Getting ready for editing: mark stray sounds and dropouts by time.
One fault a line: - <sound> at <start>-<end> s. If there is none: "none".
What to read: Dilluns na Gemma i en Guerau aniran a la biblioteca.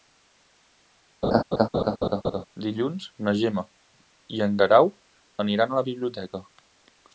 - laugh at 1.2-2.4 s